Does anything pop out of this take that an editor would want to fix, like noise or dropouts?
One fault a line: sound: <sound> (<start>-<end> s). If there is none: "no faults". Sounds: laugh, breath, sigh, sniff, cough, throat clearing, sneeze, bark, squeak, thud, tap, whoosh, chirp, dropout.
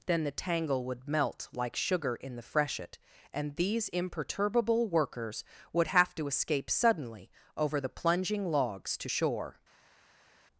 no faults